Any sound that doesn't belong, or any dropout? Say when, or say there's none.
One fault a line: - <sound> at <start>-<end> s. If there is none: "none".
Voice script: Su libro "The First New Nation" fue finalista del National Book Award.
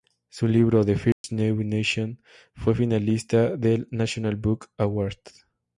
- dropout at 1.1-1.2 s